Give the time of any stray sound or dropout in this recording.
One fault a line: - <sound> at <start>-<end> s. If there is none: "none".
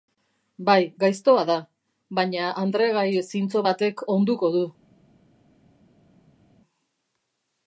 none